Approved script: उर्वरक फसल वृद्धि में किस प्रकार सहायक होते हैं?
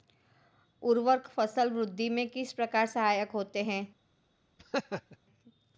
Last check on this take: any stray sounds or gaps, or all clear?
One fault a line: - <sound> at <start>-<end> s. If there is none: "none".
- laugh at 4.6-5.2 s